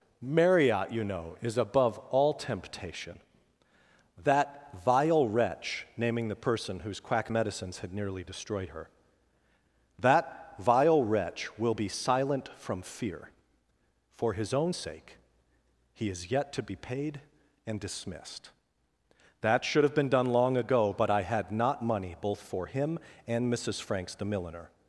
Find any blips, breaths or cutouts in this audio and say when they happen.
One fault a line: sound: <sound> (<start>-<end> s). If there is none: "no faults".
no faults